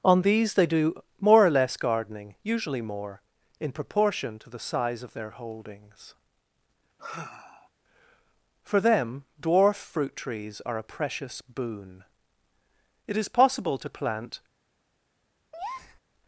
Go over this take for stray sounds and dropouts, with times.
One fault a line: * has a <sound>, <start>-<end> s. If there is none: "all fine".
* has a sigh, 7.0-7.7 s
* has a breath, 15.5-16.0 s